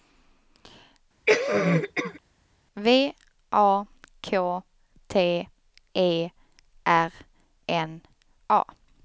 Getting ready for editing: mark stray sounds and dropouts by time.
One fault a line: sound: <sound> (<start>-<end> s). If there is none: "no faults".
sound: cough (1.3-2.2 s)